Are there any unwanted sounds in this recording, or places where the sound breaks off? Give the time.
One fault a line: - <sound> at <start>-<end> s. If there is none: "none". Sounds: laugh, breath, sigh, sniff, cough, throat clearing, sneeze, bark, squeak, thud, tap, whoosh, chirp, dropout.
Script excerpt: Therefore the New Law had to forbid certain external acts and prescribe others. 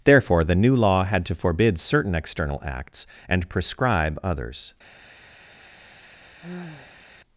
- sigh at 5.6-7.0 s